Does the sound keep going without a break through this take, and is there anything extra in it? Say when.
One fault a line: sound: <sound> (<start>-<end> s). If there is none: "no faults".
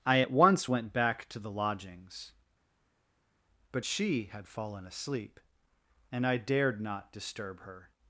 no faults